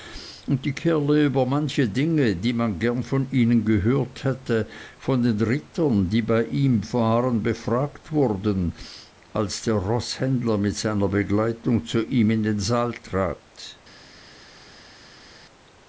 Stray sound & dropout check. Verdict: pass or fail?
pass